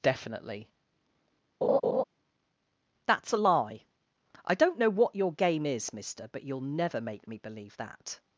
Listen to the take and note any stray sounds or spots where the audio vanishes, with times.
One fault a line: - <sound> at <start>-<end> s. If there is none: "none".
- laugh at 1.6-2.0 s